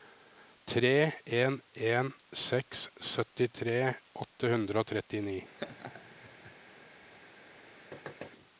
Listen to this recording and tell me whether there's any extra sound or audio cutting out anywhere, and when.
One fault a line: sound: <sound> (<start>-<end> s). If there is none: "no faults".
sound: laugh (5.6-6.5 s)
sound: thud (7.9-8.3 s)